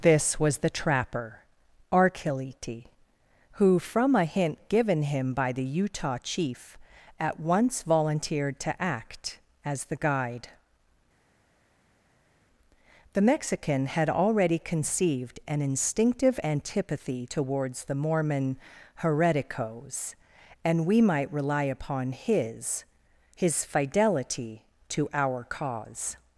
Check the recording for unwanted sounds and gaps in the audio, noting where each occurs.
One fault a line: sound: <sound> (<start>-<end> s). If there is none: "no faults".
no faults